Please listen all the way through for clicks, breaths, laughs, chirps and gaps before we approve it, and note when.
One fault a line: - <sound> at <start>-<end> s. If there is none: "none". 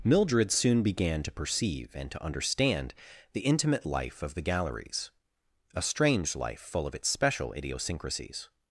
none